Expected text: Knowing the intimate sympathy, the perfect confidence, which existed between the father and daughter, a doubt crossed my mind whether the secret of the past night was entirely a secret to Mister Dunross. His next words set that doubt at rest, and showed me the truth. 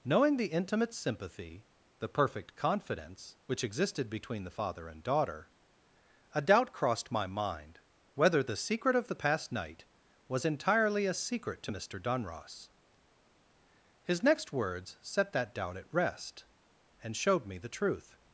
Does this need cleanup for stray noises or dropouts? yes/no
no